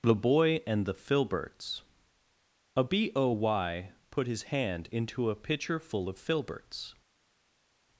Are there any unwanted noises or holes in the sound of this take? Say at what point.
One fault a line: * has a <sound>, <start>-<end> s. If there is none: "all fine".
all fine